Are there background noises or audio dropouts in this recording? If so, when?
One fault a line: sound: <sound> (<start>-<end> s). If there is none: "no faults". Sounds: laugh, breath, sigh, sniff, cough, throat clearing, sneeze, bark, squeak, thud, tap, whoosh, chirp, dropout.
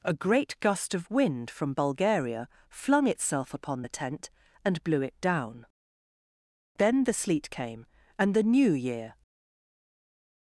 no faults